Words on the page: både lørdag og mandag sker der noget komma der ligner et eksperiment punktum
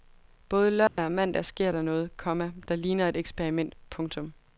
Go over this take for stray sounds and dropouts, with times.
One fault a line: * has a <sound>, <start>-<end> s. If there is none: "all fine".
* has a dropout, 0.9-1.0 s